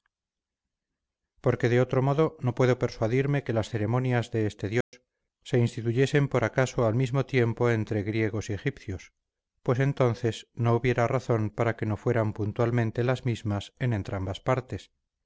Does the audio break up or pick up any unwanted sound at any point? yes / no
yes